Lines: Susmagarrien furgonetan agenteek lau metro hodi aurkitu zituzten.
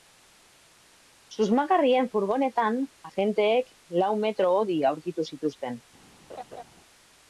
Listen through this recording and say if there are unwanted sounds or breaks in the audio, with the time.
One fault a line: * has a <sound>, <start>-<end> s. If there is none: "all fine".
* has a laugh, 6.3-6.6 s